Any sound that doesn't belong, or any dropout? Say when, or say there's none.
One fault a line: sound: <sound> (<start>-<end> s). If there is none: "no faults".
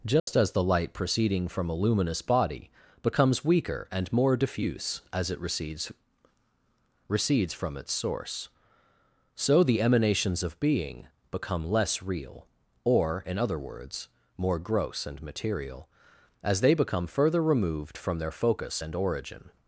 sound: dropout (0.2-0.3 s)